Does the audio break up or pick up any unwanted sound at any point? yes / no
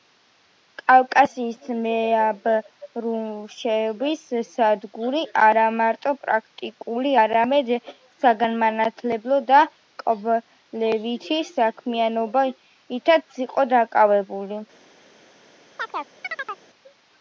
yes